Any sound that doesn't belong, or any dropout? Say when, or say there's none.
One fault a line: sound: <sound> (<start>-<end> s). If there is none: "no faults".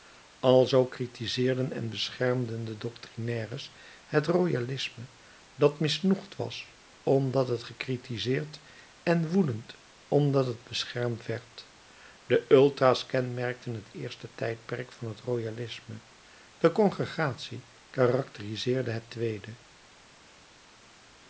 no faults